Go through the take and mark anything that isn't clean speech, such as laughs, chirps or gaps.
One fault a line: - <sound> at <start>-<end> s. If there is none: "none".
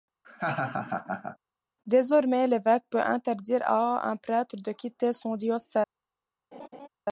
- laugh at 0.2-1.4 s
- laugh at 6.5-6.9 s